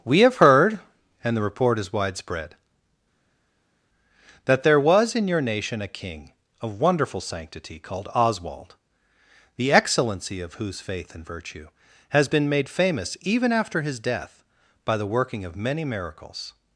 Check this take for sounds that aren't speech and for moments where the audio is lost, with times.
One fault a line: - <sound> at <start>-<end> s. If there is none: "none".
none